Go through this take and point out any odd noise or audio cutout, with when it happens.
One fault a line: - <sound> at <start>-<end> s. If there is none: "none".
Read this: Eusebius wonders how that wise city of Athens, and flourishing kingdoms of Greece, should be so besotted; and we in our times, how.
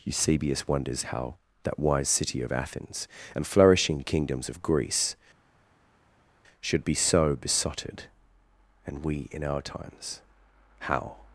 none